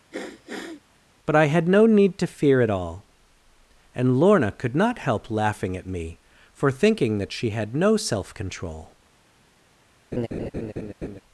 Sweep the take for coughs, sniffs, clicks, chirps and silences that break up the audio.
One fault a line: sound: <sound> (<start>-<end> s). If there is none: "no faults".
sound: sniff (0.1-0.8 s)
sound: laugh (10.1-11.2 s)